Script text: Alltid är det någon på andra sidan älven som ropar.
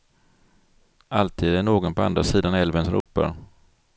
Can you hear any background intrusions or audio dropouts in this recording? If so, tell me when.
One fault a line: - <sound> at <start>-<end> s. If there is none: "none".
- dropout at 3.0-3.1 s